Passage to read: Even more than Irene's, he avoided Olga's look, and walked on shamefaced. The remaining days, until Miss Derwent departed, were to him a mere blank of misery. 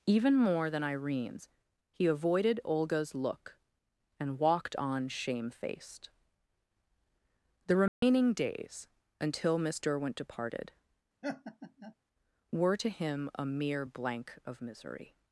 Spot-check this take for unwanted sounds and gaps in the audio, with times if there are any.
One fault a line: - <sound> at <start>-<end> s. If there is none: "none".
- dropout at 7.9-8.0 s
- laugh at 11.2-12.0 s